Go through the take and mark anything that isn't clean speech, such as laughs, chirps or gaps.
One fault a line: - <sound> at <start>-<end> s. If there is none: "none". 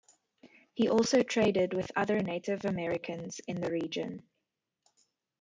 none